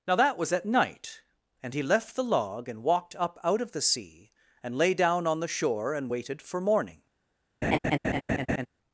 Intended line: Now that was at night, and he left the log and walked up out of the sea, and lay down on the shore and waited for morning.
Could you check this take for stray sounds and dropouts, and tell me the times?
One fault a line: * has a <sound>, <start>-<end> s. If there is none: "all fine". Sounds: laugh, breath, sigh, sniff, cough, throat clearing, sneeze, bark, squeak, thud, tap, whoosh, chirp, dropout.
* has a laugh, 7.6-8.7 s